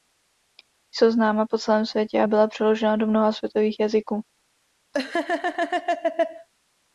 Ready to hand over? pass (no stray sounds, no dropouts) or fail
fail